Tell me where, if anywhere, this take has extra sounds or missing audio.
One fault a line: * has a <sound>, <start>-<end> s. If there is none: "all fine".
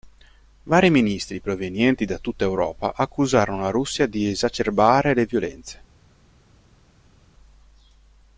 all fine